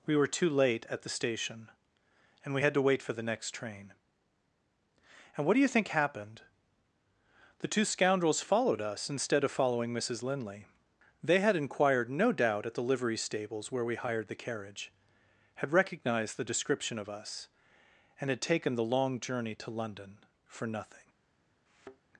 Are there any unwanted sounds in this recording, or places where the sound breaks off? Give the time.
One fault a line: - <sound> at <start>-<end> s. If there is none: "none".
- thud at 21.7-22.0 s